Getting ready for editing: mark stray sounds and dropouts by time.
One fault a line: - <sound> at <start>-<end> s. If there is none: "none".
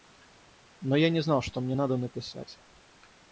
none